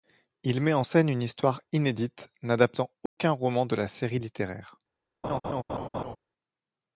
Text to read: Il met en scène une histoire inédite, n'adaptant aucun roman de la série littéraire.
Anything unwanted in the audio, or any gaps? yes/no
yes